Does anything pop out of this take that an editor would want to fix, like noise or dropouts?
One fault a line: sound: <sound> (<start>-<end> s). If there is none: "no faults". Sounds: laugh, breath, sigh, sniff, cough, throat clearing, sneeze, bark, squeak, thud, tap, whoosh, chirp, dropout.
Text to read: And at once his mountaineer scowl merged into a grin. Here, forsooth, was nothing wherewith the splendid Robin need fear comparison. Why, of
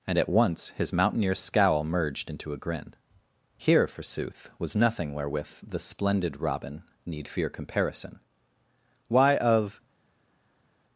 no faults